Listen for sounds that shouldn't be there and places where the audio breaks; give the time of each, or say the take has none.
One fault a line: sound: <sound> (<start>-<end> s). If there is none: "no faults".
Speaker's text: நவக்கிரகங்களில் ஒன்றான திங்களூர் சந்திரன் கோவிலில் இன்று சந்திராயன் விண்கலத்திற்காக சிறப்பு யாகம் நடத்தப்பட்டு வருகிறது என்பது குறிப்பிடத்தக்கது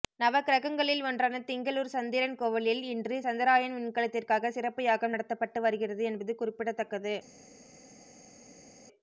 no faults